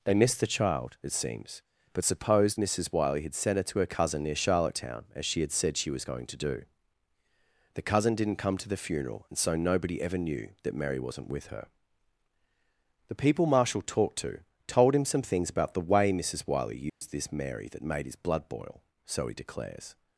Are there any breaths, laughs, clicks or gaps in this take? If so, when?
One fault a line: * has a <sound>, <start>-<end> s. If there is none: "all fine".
* has a dropout, 16.9-17.0 s